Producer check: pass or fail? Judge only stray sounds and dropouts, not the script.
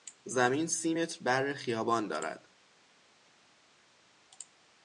pass